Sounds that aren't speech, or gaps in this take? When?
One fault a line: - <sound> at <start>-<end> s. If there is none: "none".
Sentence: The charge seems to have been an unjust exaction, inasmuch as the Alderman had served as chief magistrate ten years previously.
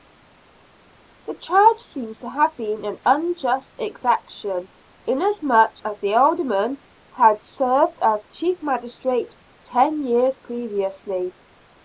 none